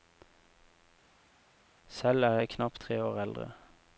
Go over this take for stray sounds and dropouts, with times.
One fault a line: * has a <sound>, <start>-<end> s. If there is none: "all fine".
all fine